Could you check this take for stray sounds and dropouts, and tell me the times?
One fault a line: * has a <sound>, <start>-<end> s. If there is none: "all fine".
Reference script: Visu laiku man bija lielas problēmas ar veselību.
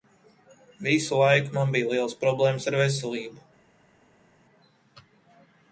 all fine